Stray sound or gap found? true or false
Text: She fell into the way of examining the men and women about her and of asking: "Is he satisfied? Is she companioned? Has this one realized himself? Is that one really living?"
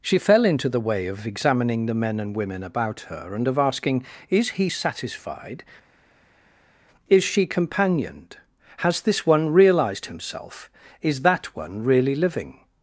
false